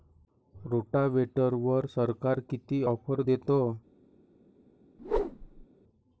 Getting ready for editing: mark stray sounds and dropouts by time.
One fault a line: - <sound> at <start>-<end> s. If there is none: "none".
- whoosh at 5.0-5.7 s